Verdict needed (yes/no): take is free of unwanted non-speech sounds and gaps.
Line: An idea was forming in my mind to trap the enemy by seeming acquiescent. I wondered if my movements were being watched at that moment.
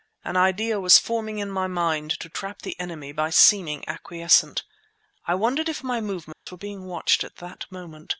no